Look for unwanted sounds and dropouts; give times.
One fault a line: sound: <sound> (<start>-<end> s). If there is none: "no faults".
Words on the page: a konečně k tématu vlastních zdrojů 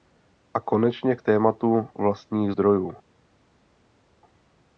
no faults